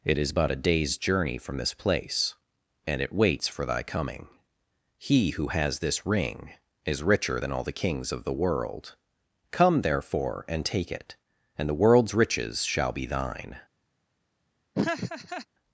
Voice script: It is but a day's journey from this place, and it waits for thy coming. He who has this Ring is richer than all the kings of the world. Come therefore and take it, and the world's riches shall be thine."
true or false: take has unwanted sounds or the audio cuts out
true